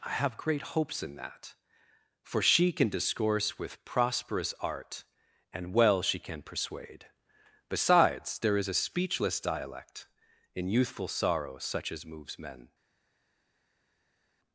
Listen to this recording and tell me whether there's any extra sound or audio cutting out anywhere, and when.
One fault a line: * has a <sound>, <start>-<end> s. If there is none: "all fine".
all fine